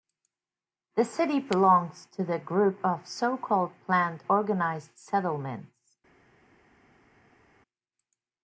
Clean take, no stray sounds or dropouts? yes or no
yes